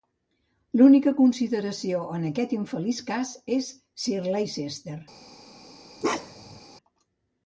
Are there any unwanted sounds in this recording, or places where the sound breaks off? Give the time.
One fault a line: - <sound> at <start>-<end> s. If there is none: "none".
- bark at 6.0-6.6 s